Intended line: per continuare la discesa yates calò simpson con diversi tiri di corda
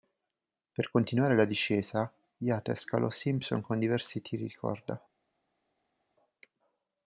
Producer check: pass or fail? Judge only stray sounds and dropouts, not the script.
pass